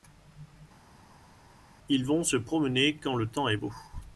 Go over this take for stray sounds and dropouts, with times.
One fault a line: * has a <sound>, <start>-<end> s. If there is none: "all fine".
all fine